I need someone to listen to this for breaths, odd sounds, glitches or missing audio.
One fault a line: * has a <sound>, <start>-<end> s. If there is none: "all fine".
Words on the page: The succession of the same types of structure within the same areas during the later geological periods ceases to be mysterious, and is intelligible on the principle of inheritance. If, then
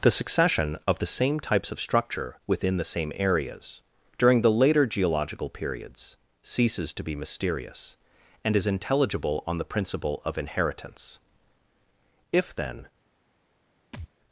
* has a thud, 13.9-14.1 s